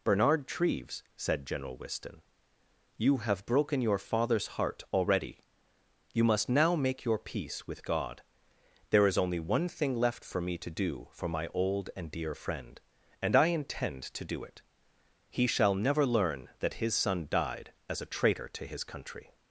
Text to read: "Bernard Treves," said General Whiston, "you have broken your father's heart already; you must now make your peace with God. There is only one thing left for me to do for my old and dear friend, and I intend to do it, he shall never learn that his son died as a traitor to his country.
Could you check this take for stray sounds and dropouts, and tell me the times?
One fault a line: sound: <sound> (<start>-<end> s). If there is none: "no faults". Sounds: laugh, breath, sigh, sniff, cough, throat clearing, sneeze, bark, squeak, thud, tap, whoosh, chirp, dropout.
no faults